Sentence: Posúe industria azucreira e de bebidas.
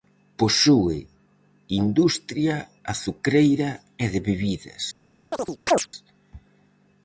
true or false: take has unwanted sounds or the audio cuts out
true